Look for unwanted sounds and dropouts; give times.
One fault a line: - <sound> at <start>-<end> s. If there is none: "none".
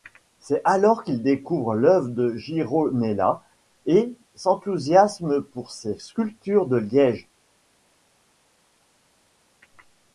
none